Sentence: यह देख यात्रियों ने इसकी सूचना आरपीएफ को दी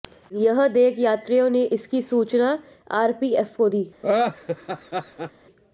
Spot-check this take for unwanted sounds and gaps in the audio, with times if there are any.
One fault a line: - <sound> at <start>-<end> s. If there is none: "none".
- laugh at 4.0-5.3 s